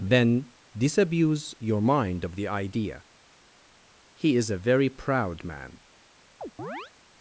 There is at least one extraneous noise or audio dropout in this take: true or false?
true